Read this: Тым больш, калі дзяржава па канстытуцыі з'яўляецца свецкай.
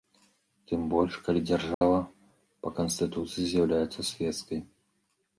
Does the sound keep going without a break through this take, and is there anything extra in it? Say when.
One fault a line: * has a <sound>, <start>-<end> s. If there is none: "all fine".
* has a dropout, 1.7-1.8 s